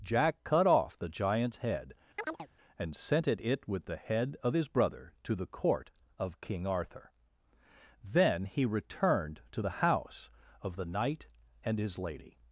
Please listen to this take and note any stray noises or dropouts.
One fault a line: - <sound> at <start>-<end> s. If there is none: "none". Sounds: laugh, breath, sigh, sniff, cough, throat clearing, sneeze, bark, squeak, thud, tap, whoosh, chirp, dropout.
- chirp at 2.2-2.5 s